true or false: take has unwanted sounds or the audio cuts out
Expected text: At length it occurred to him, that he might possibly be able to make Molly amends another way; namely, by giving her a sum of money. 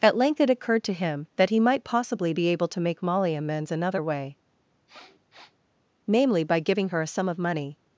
true